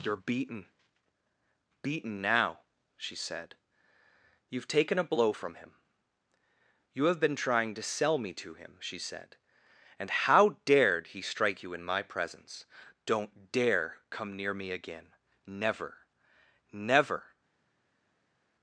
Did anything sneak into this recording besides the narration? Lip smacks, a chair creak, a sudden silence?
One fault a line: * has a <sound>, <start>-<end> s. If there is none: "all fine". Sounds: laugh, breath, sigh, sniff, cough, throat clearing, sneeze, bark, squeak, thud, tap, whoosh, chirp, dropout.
all fine